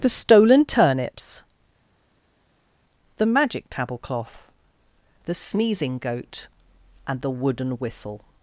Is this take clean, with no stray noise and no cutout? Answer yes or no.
yes